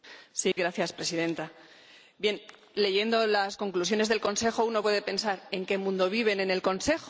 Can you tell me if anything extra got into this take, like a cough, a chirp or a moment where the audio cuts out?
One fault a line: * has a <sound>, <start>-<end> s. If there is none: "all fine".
* has a dropout, 0.5-0.6 s